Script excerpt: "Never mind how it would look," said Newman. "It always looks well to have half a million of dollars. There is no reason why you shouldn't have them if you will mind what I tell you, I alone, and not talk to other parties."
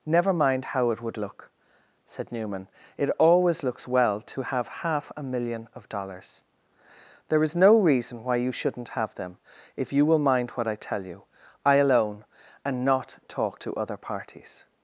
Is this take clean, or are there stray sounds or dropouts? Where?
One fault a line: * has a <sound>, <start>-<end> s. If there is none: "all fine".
all fine